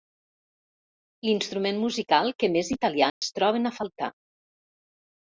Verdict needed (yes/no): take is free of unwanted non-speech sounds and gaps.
no